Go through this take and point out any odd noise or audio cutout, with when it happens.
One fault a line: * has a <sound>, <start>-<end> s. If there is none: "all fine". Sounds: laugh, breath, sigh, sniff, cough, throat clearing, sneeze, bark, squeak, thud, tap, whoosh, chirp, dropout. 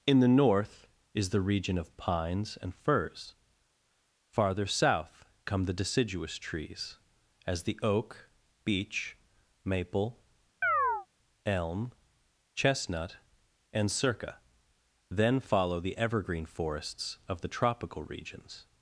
* has a chirp, 10.6-11.1 s